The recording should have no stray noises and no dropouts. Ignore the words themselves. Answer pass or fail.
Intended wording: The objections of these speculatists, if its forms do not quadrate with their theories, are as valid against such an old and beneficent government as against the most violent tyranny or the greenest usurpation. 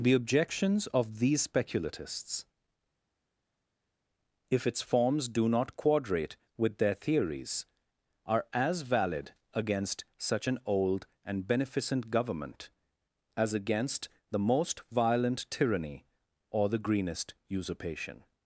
pass